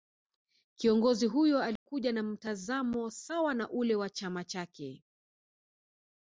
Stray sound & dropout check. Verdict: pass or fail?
fail